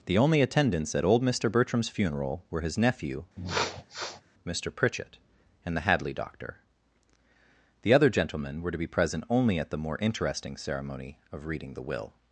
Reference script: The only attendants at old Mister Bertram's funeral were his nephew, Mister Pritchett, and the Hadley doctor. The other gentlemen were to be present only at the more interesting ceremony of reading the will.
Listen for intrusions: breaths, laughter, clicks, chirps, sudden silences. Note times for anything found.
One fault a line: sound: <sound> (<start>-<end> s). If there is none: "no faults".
sound: sniff (3.4-4.2 s)